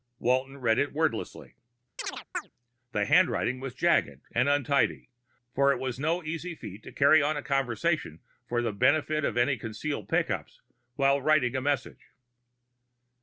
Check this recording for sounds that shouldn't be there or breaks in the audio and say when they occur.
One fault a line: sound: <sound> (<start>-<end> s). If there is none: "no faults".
sound: chirp (2.0-2.5 s)